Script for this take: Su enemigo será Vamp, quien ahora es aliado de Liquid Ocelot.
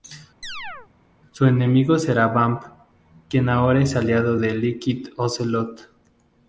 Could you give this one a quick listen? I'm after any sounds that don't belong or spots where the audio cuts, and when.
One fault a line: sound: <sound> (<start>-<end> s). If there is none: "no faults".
sound: chirp (0.4-0.9 s)